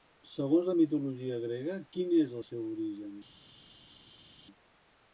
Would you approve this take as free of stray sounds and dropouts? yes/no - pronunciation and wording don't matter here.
yes